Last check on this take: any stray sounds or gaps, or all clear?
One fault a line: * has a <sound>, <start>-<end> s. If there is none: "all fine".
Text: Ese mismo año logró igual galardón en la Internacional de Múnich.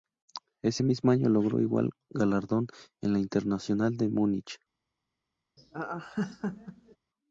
* has a laugh, 5.6-7.0 s